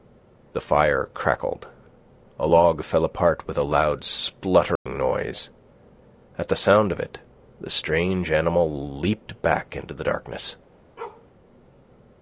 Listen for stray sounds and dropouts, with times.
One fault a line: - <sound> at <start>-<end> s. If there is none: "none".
- dropout at 4.8-4.9 s
- bark at 11.0-11.3 s